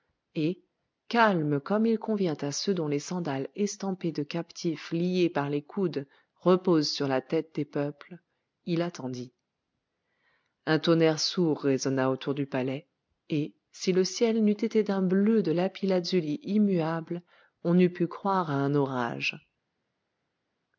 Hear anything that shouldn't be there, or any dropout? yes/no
no